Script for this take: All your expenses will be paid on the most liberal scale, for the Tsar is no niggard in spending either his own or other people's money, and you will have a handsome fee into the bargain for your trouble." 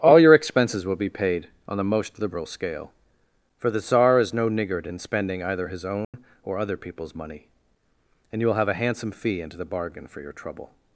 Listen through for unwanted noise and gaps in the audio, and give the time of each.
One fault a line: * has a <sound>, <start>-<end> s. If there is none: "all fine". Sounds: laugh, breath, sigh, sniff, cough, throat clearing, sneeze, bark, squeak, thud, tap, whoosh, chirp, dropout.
* has a dropout, 6.0-6.1 s